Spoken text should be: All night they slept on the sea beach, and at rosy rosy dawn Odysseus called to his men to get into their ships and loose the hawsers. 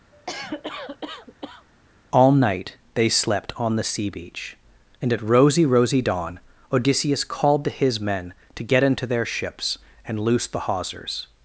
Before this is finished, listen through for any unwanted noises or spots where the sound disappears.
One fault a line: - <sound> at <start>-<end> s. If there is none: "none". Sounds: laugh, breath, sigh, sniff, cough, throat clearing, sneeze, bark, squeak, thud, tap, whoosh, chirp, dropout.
- cough at 0.1-1.7 s